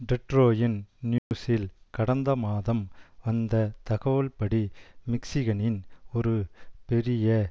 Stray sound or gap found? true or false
true